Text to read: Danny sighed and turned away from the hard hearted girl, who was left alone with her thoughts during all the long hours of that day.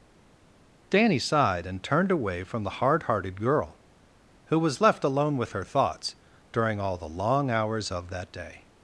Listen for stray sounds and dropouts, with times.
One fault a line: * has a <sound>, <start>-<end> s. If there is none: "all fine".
all fine